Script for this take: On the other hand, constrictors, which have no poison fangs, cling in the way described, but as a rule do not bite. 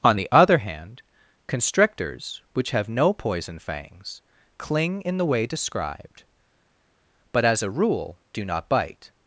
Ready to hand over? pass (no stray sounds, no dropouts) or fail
pass